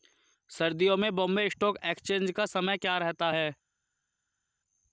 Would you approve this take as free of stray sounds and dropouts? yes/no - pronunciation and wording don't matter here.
yes